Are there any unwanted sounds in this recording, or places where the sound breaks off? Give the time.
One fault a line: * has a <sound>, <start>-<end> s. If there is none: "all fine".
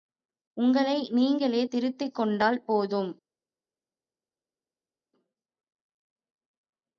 all fine